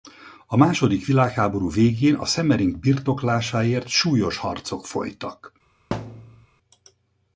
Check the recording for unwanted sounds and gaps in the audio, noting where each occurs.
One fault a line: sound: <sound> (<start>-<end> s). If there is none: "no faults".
sound: thud (5.9-6.5 s)